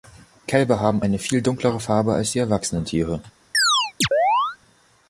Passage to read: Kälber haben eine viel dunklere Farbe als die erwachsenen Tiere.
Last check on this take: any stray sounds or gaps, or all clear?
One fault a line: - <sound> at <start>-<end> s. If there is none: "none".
- chirp at 3.5-4.6 s